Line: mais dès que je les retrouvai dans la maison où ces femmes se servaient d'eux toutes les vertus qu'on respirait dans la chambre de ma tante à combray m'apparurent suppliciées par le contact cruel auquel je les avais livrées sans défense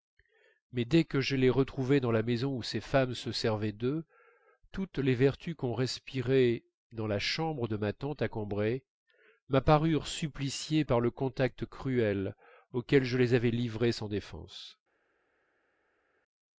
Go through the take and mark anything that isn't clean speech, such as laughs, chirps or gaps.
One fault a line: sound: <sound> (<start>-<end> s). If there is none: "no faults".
no faults